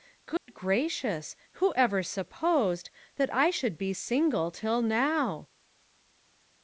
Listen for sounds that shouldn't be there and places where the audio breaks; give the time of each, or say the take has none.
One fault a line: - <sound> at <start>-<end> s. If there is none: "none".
- dropout at 0.4-0.5 s